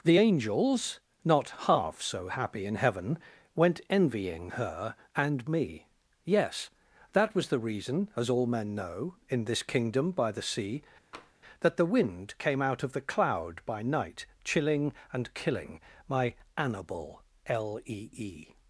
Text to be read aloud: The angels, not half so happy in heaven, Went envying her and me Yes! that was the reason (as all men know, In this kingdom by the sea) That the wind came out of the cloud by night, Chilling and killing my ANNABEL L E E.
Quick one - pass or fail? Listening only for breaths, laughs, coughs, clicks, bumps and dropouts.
fail